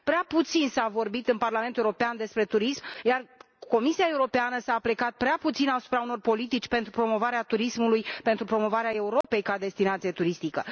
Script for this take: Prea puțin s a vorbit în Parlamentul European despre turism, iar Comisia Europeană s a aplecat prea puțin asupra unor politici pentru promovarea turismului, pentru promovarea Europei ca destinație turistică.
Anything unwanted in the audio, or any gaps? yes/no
yes